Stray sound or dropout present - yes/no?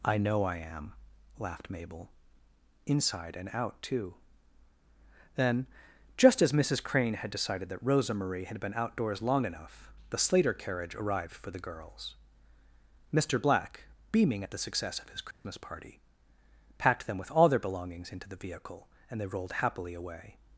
yes